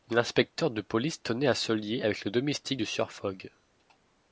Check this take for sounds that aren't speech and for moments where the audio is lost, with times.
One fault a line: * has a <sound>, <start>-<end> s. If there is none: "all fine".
all fine